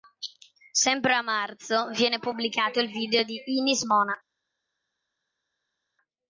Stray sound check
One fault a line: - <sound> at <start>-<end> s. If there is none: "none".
none